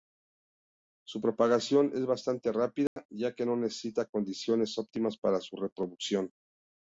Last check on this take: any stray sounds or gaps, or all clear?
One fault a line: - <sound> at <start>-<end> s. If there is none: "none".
- dropout at 2.9-3.0 s